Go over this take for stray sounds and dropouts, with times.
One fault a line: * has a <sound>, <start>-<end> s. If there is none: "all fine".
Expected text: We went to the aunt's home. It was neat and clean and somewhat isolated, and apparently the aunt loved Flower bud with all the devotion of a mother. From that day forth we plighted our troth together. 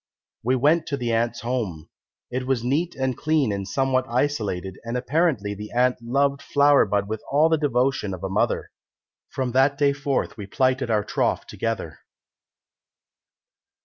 all fine